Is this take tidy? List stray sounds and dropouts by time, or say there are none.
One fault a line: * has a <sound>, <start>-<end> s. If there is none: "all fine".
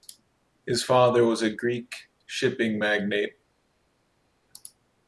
all fine